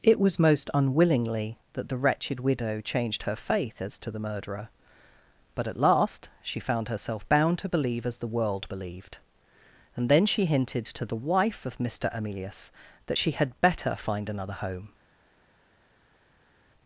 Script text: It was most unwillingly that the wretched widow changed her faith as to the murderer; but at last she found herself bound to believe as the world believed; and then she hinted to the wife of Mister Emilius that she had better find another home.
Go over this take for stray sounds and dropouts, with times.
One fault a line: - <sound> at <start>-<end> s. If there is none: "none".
none